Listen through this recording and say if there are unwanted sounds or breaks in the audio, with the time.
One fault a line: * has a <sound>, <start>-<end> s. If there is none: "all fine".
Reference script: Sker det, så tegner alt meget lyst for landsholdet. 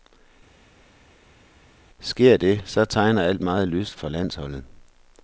all fine